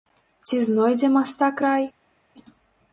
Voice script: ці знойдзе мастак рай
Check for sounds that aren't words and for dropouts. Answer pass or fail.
pass